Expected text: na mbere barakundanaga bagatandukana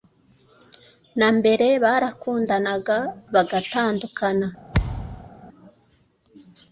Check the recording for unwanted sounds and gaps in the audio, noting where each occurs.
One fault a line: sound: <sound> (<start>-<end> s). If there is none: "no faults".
sound: thud (4.7-5.3 s)